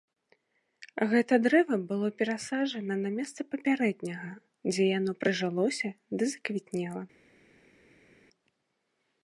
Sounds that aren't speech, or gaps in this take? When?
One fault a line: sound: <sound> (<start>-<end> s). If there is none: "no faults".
no faults